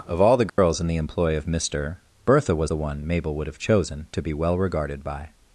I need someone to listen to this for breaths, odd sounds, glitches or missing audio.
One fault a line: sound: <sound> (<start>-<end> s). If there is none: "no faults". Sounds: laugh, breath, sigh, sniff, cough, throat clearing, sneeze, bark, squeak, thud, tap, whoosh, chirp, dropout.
sound: dropout (0.5-0.6 s)